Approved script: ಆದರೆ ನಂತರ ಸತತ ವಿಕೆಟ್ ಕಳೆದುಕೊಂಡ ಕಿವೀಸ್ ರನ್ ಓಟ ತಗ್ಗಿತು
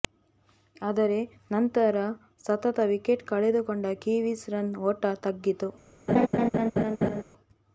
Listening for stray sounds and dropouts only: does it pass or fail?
fail